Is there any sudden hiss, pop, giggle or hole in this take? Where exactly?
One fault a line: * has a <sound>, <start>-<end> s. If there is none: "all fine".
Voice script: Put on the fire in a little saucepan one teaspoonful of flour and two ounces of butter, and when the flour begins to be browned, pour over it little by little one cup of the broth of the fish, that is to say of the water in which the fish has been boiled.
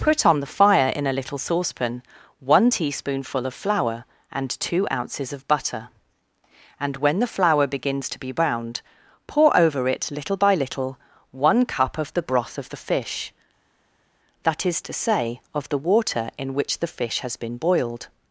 all fine